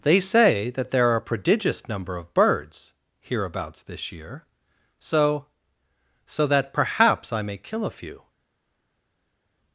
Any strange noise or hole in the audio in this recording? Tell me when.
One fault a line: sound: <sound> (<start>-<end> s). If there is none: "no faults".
no faults